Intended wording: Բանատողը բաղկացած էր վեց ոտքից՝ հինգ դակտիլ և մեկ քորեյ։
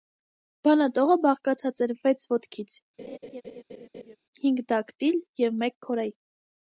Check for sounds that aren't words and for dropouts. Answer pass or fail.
fail